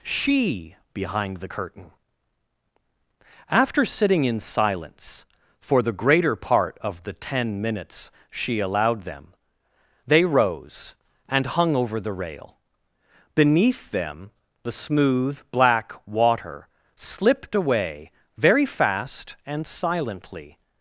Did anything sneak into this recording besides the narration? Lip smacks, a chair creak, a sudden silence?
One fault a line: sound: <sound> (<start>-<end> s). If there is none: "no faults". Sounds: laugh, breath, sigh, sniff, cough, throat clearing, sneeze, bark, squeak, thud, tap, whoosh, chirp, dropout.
no faults